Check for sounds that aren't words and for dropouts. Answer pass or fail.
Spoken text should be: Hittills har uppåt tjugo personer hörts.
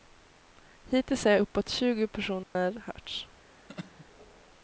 fail